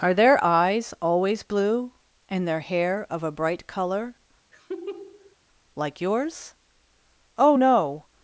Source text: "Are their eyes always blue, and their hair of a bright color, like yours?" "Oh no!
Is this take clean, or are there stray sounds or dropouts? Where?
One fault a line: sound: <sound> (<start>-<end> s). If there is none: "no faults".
sound: laugh (4.5-5.4 s)